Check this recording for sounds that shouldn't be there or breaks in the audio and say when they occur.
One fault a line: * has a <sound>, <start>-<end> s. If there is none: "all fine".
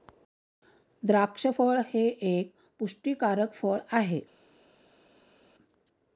all fine